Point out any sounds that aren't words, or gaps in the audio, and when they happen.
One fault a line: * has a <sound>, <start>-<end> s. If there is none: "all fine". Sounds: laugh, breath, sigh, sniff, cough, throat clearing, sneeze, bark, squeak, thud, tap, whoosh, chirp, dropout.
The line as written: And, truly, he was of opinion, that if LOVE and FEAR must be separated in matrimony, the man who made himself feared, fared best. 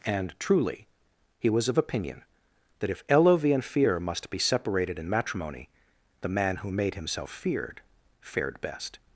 all fine